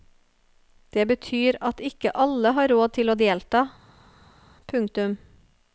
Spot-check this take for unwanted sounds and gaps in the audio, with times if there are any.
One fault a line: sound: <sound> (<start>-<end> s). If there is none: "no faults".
no faults